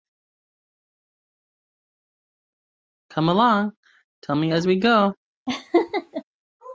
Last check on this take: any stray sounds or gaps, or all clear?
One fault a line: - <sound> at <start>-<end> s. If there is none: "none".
- laugh at 5.5-6.2 s